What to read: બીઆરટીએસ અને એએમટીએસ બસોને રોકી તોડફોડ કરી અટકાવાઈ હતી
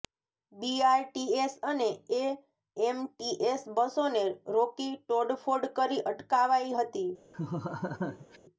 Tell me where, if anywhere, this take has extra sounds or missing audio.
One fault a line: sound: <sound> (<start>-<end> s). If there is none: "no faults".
sound: laugh (7.3-8.4 s)